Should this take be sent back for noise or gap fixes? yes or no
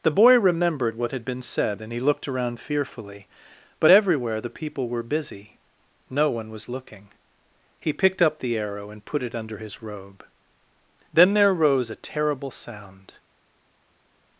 no